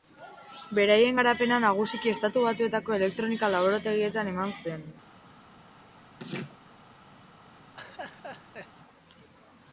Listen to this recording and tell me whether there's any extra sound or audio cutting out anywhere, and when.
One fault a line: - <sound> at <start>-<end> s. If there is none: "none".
- laugh at 6.2-6.6 s
- laugh at 7.7-8.7 s